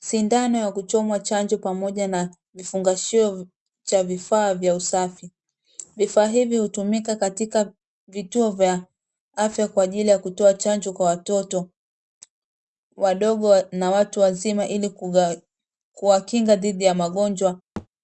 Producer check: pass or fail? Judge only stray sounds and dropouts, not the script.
fail